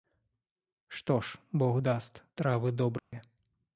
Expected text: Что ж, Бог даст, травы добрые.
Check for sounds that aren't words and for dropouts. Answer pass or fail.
fail